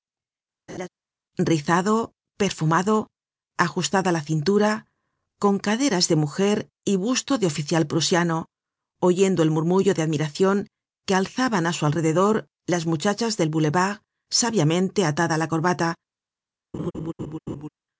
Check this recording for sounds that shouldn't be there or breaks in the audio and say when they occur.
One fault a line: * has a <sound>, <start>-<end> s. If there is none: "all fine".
* has a laugh, 0.7-0.9 s
* has a laugh, 16.7-17.7 s